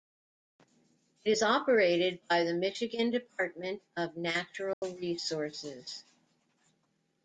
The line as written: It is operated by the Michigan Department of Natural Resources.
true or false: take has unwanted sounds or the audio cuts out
true